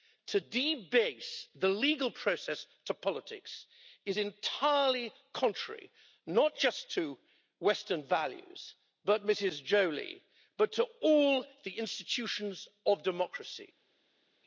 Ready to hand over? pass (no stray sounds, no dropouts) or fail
pass